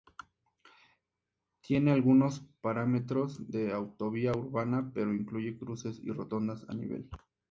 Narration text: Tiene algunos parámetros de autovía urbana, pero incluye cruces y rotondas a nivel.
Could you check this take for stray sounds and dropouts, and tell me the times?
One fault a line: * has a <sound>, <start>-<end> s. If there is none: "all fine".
all fine